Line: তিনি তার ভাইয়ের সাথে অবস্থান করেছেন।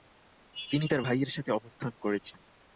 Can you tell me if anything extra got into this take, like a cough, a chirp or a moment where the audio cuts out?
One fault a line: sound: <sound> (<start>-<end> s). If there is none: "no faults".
no faults